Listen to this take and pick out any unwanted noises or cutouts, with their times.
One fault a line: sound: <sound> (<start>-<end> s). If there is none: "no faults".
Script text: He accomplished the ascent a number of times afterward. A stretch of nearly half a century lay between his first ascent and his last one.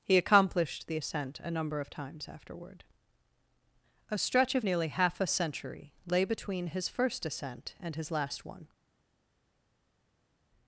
no faults